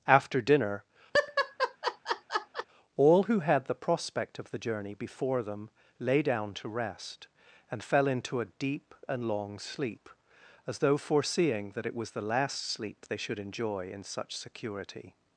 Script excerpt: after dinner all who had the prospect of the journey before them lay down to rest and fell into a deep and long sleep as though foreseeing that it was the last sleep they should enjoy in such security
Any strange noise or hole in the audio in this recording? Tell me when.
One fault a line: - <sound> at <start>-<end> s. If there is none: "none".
- laugh at 1.1-2.7 s